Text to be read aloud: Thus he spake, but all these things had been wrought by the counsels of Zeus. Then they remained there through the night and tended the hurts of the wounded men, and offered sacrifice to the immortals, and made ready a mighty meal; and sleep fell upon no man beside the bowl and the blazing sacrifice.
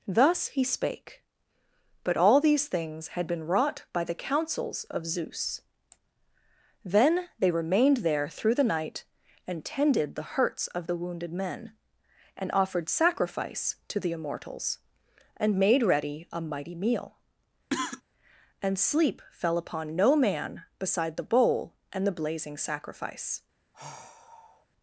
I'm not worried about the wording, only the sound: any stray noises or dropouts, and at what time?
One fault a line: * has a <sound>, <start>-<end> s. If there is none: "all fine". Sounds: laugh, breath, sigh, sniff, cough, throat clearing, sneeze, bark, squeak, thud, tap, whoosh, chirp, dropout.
* has a cough, 17.7-18.0 s
* has a sigh, 23.7-24.7 s